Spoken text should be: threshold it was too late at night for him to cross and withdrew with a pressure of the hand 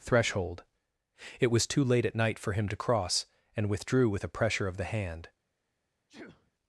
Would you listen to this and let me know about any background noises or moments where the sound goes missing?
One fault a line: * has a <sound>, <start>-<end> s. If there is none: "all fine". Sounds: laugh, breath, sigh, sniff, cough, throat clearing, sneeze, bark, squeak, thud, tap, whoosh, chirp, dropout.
* has a sneeze, 6.1-6.5 s